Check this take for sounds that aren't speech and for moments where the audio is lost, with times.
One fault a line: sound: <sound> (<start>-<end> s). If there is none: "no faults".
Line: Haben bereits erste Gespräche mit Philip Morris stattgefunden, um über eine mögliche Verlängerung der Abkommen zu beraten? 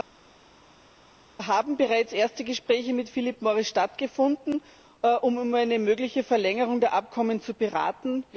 no faults